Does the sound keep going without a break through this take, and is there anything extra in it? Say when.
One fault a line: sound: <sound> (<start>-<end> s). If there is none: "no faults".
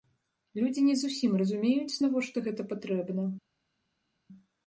no faults